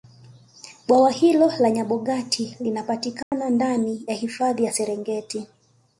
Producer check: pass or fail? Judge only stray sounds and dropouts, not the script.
fail